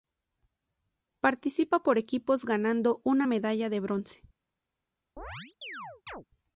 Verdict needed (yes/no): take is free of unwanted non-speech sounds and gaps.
no